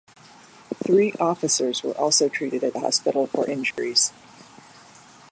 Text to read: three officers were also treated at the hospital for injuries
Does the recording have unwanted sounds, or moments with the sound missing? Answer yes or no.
yes